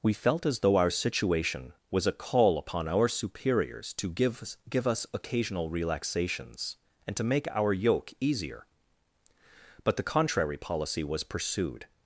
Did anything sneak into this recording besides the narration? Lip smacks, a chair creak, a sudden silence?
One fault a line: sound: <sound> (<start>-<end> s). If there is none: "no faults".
no faults